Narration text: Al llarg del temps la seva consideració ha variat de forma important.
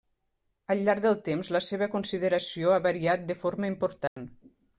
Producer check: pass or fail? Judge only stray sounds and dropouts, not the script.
fail